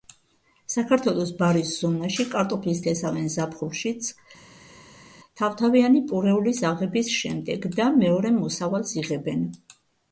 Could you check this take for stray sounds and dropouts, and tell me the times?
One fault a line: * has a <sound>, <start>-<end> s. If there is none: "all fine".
all fine